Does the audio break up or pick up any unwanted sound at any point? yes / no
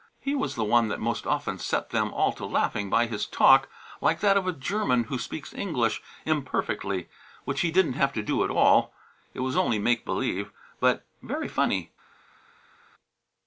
no